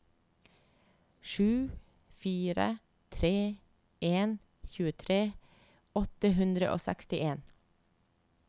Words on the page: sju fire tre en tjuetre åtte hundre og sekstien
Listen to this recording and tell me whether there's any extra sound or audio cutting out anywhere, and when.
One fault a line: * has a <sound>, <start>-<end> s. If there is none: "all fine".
all fine